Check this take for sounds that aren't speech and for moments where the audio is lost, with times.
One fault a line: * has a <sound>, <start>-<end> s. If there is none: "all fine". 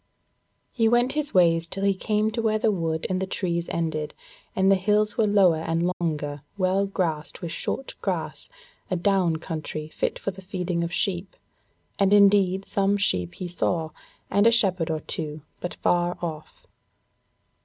* has a dropout, 5.9-6.0 s